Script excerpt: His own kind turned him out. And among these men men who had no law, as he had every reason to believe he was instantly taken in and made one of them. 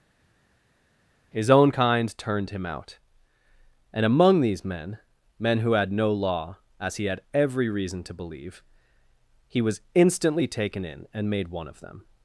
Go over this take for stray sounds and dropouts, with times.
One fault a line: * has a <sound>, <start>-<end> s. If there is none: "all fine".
all fine